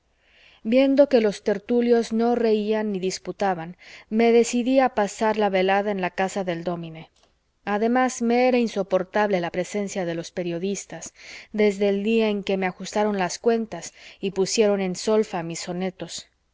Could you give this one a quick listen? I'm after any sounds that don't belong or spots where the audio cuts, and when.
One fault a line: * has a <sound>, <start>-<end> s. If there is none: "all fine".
all fine